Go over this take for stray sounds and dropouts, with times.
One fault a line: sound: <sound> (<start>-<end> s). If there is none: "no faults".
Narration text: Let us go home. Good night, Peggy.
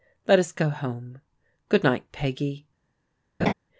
sound: laugh (3.4-3.5 s)